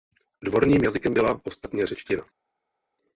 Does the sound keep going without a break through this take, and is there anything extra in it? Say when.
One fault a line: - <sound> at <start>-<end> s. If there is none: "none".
none